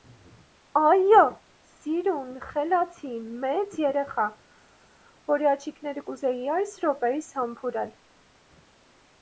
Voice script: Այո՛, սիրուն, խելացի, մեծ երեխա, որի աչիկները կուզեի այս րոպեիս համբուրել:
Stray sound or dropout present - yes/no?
no